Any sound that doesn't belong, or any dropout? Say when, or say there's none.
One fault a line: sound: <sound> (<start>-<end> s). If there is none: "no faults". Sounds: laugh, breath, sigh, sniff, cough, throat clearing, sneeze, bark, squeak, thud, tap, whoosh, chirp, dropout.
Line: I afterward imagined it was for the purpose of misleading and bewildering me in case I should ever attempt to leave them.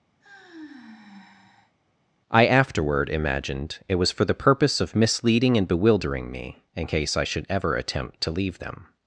sound: sigh (0.2-1.7 s)